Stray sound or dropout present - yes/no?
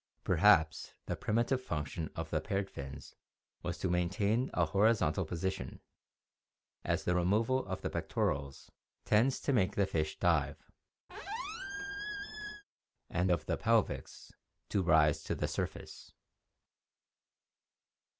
yes